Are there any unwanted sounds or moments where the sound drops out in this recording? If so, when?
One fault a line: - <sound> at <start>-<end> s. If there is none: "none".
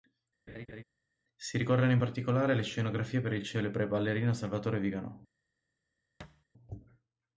- laugh at 0.5-0.8 s
- thud at 6.2-6.4 s